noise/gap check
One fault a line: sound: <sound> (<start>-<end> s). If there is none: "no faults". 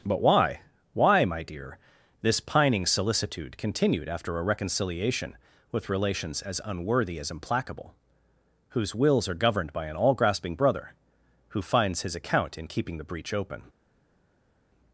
no faults